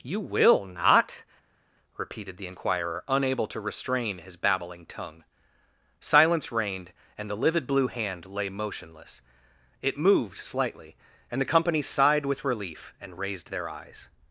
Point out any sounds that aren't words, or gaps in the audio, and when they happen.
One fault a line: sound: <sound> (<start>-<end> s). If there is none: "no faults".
no faults